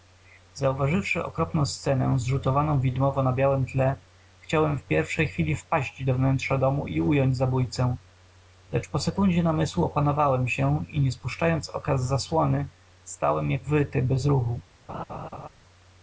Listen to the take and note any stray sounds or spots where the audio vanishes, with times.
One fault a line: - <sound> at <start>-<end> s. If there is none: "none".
- laugh at 14.9-15.5 s